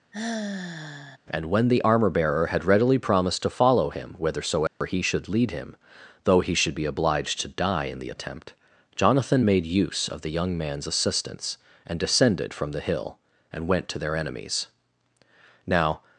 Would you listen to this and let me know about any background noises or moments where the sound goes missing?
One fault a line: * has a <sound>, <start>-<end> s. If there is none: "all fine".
* has a sigh, 0.1-1.2 s
* has a dropout, 4.7-4.8 s